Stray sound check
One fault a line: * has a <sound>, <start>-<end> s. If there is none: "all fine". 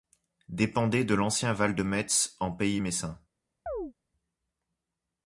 * has a chirp, 3.7-3.9 s